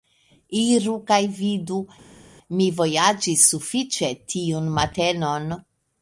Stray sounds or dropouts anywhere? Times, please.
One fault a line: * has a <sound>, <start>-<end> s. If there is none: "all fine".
all fine